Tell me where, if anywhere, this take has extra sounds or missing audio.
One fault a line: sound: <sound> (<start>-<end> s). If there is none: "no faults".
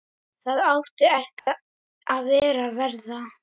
sound: dropout (1.4-1.5 s)